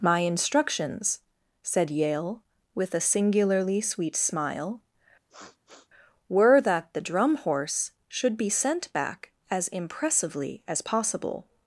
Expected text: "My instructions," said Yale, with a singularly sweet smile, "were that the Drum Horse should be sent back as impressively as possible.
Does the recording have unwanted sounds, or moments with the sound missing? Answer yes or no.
yes